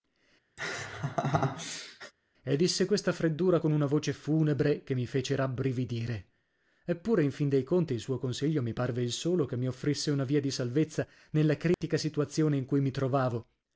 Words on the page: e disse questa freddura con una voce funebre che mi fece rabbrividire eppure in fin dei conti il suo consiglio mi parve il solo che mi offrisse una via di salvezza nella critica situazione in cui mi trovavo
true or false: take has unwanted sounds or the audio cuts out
true